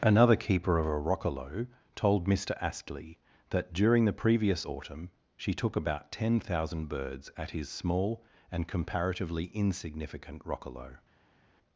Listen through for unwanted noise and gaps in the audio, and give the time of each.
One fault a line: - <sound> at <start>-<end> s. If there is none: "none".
none